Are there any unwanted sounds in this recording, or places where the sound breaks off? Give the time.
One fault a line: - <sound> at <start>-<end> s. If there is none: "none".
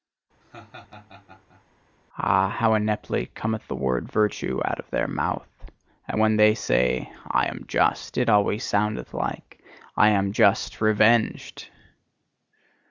- laugh at 0.4-1.6 s